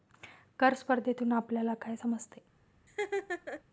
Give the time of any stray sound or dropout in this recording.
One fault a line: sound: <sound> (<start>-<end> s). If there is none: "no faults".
sound: laugh (2.9-3.6 s)